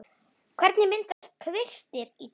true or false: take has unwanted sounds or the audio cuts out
true